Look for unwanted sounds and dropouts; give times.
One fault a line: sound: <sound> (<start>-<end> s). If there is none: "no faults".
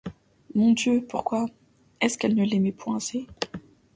no faults